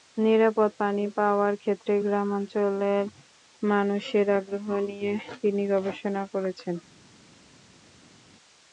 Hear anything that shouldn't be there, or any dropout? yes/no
no